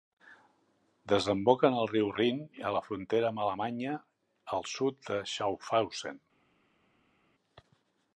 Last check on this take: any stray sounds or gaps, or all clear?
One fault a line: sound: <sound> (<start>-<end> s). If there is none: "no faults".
no faults